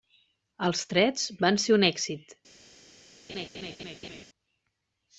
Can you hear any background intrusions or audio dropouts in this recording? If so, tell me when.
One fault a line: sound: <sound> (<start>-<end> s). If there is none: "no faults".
sound: laugh (3.3-4.2 s)